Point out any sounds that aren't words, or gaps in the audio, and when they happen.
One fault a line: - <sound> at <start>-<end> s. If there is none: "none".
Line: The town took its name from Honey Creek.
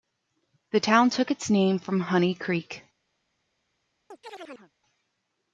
- chirp at 4.1-4.7 s